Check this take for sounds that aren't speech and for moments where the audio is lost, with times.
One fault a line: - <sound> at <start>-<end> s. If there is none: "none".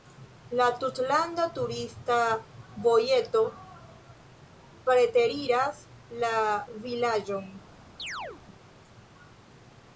- chirp at 8.0-8.4 s